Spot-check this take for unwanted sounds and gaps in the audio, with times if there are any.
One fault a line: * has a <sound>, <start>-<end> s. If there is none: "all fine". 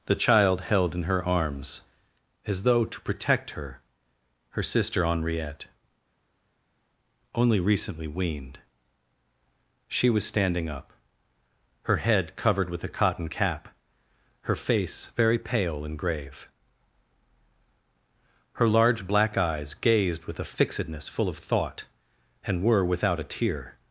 all fine